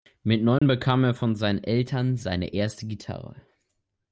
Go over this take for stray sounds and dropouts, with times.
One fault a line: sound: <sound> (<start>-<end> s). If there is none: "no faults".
sound: dropout (0.6-0.6 s)